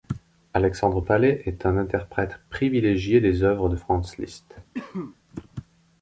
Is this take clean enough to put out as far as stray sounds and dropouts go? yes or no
no